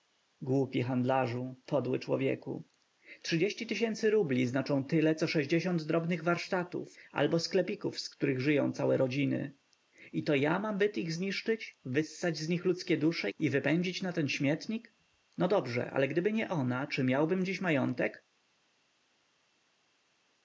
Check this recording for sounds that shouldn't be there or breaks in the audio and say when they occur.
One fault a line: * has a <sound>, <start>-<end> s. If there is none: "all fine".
all fine